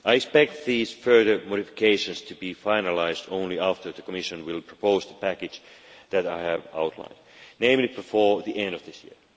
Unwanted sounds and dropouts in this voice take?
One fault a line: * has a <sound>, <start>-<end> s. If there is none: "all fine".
all fine